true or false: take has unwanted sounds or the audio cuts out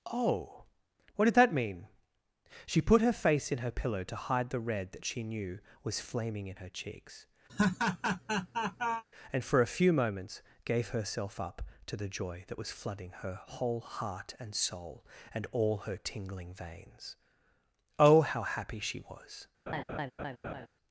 true